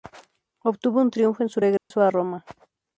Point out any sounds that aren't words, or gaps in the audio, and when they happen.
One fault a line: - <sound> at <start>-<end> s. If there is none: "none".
- dropout at 1.8-1.9 s